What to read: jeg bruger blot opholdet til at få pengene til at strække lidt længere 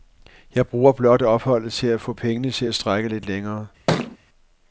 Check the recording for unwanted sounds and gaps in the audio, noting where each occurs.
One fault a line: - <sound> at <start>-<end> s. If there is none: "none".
- thud at 3.9-4.2 s